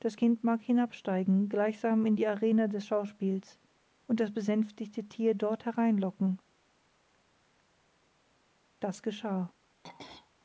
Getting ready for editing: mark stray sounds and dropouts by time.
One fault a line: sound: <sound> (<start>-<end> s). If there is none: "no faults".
sound: throat clearing (9.8-10.3 s)